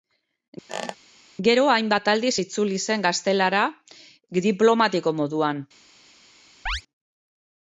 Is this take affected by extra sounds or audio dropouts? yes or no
yes